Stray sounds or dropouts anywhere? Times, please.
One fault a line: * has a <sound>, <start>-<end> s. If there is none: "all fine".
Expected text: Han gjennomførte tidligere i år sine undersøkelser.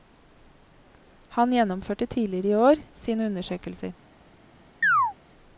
* has a chirp, 4.8-5.1 s